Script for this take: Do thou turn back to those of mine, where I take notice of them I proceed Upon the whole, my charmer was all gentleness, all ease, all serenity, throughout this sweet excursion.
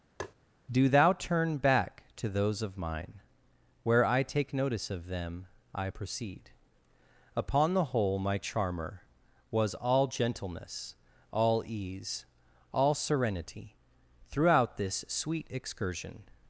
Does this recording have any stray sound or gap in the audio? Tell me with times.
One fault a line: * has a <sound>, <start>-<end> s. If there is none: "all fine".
* has a tap, 0.2-0.3 s